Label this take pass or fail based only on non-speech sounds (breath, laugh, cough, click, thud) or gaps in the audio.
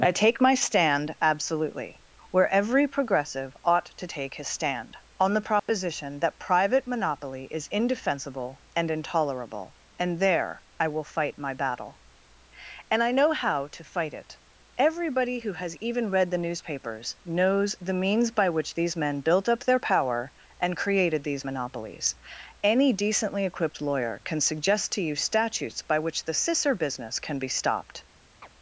fail